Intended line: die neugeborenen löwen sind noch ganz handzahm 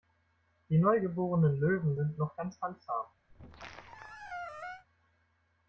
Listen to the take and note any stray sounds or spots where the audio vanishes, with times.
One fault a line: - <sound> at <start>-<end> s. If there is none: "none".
- squeak at 3.3-4.9 s